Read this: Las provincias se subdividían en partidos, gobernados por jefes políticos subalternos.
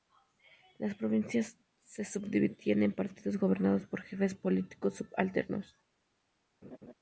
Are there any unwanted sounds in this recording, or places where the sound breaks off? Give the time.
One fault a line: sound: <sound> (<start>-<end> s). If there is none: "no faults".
sound: laugh (6.6-6.9 s)